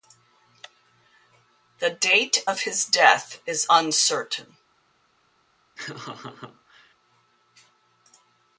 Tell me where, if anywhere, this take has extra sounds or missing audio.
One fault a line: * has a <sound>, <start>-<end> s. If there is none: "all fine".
* has a laugh, 5.8-6.9 s